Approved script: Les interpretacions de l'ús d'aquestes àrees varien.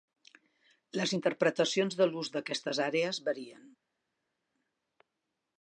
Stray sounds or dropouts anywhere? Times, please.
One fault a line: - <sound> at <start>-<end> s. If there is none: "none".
none